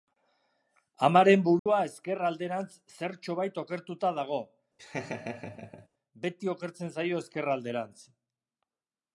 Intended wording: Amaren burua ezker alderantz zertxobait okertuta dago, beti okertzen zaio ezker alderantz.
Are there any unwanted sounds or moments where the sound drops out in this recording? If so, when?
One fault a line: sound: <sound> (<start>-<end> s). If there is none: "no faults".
sound: dropout (1.6-1.7 s)
sound: laugh (4.8-5.9 s)